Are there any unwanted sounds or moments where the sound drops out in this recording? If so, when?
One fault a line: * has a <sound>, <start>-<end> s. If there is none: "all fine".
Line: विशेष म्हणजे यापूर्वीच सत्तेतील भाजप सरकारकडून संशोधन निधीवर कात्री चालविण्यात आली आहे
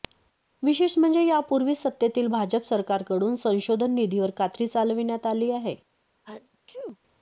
* has a sneeze, 6.2-7.0 s